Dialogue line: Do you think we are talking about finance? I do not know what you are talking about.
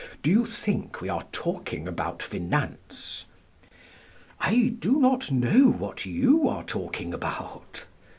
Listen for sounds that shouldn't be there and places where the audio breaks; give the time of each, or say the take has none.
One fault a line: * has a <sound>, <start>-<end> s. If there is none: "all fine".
all fine